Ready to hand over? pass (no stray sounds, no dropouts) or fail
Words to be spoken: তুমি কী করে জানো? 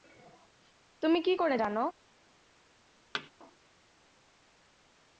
fail